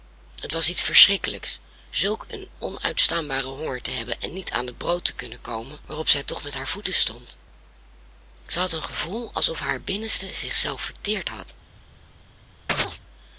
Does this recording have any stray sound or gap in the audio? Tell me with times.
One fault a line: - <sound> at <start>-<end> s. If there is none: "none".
- chirp at 12.7-13.0 s